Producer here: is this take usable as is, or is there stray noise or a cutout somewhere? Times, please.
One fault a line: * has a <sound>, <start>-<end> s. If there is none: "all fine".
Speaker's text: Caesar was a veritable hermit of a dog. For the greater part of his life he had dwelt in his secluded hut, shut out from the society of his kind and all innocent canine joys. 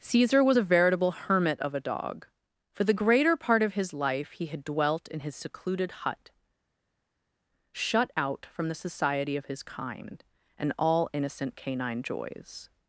all fine